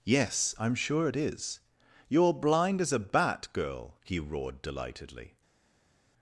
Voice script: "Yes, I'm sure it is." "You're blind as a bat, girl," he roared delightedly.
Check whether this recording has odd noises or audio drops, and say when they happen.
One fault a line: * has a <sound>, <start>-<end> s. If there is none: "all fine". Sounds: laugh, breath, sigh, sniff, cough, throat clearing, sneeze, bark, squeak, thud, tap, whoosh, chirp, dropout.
all fine